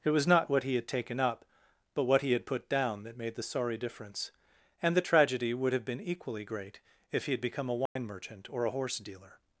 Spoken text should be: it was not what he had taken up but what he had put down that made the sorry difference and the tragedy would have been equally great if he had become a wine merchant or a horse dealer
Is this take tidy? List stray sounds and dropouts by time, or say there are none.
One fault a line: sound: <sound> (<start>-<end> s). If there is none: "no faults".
sound: dropout (7.9-8.0 s)